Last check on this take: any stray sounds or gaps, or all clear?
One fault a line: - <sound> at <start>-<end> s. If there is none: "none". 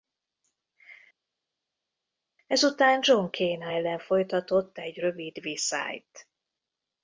none